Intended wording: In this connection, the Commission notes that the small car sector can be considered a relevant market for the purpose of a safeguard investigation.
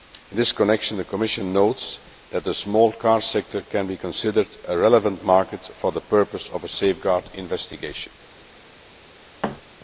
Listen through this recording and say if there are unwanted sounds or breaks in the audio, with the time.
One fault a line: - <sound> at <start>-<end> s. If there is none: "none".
- thud at 9.4-9.6 s